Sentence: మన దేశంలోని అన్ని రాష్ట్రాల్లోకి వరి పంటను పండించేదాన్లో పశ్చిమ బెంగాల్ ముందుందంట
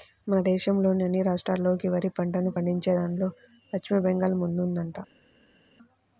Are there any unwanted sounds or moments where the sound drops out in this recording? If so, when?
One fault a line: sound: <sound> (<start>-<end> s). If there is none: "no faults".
no faults